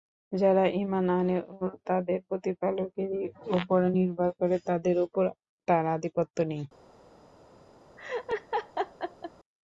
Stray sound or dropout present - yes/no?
yes